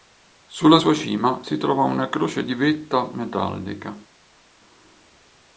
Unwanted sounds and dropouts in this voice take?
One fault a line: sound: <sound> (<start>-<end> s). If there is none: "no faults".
no faults